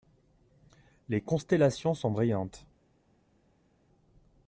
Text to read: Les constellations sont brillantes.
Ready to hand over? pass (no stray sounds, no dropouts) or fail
pass